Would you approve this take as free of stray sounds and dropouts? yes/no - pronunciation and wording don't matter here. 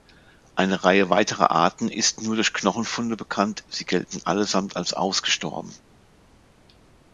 yes